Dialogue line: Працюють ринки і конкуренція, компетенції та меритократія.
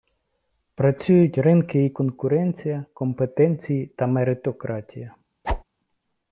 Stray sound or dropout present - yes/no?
yes